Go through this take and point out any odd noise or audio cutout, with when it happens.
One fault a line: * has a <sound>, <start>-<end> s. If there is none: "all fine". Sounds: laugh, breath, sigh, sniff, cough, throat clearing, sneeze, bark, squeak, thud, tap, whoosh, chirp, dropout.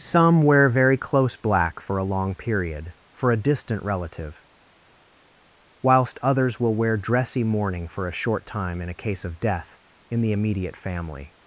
all fine